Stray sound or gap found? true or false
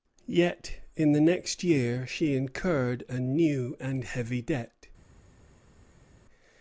false